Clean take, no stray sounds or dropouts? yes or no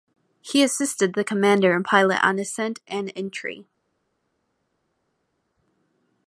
yes